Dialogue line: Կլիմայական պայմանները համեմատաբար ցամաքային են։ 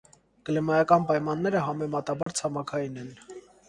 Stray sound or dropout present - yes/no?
yes